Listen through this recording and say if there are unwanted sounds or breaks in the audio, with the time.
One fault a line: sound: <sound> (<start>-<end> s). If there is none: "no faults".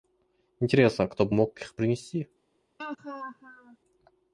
sound: laugh (2.8-3.8 s)